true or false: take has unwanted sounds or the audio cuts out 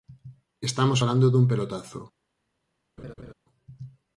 true